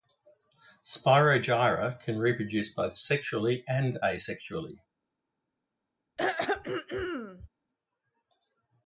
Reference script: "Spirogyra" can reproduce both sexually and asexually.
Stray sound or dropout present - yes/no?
yes